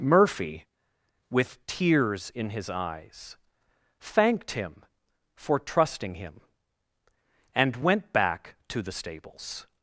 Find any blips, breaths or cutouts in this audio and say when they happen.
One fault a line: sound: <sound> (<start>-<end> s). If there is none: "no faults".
no faults